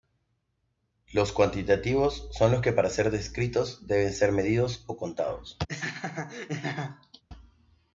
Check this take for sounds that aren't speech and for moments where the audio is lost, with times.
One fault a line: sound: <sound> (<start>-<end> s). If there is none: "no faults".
sound: laugh (5.7-7.2 s)